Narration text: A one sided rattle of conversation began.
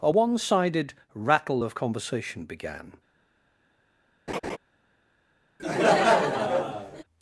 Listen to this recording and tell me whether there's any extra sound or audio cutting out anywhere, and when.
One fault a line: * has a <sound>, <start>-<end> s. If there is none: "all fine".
* has a laugh, 4.3-4.6 s
* has a laugh, 5.6-7.0 s